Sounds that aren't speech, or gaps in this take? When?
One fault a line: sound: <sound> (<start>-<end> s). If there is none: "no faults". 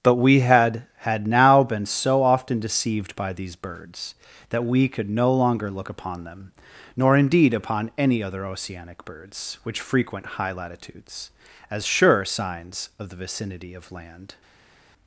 no faults